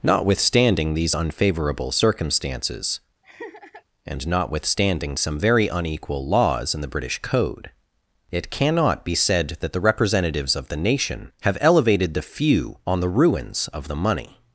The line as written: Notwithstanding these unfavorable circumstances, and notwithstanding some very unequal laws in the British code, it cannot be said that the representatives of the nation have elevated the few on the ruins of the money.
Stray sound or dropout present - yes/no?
yes